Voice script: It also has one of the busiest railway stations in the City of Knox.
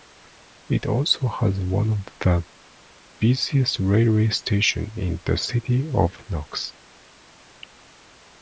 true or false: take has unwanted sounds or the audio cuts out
false